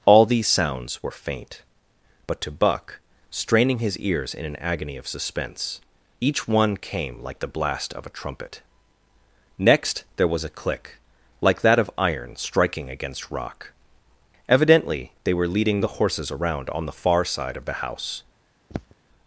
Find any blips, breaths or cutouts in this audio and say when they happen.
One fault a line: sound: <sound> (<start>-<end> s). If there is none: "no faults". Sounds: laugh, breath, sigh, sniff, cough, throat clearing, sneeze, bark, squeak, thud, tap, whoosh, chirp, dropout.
sound: throat clearing (18.7-19.0 s)